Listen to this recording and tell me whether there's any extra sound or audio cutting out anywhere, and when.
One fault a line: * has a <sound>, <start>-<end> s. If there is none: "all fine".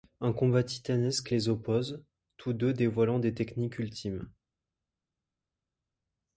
all fine